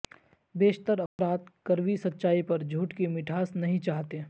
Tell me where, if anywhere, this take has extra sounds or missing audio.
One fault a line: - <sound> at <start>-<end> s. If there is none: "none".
- dropout at 1.1-1.2 s